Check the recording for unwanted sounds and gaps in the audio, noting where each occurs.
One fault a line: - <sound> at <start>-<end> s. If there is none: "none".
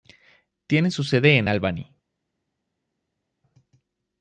none